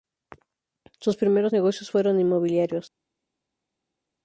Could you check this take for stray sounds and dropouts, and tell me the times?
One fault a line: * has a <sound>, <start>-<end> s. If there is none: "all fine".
all fine